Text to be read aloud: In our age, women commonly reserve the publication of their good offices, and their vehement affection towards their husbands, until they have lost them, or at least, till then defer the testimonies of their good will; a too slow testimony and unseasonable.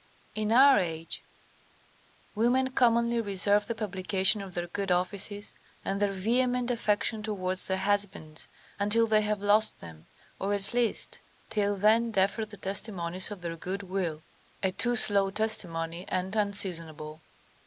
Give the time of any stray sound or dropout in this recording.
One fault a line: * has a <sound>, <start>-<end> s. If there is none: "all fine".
all fine